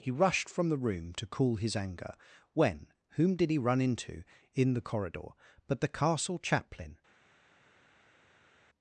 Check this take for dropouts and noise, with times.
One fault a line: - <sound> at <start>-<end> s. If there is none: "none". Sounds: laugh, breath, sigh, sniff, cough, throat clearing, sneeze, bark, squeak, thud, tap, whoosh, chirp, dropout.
none